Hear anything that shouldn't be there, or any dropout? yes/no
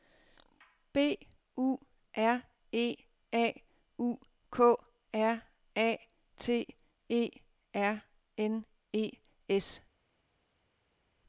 no